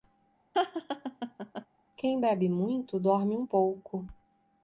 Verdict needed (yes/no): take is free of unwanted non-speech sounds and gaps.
no